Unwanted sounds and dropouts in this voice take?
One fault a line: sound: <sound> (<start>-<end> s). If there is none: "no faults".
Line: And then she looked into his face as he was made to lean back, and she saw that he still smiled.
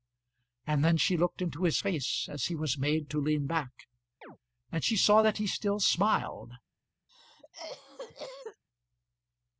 sound: chirp (4.2-4.4 s)
sound: cough (7.1-8.6 s)